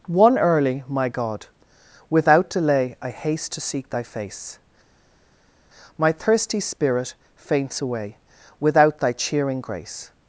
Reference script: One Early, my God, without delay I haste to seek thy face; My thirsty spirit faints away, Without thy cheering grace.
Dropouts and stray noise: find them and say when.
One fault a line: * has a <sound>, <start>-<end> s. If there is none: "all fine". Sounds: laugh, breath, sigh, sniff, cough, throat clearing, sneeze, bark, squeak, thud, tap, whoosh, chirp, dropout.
all fine